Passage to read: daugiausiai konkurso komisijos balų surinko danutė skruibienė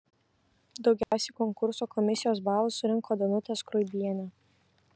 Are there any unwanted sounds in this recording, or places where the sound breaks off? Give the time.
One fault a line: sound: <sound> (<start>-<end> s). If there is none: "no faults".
sound: dropout (1.0-1.1 s)